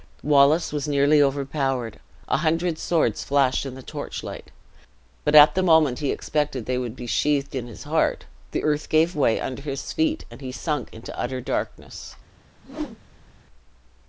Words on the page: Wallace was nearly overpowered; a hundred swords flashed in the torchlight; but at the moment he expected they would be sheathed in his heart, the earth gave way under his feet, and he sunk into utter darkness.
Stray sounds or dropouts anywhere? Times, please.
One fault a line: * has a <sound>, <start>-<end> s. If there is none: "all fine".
* has a whoosh, 12.6-13.4 s